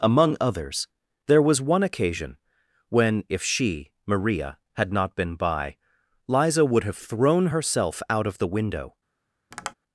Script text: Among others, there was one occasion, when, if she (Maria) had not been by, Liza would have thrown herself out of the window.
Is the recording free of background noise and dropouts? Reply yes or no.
no